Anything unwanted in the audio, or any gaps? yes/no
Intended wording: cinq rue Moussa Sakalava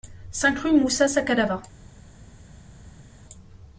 no